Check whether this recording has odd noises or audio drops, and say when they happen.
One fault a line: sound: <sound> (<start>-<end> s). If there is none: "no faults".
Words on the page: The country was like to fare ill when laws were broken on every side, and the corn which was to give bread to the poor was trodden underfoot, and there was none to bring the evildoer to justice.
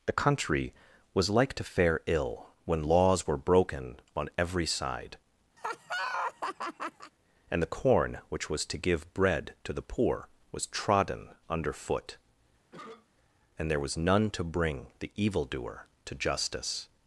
sound: laugh (5.6-7.1 s)
sound: cough (12.7-13.1 s)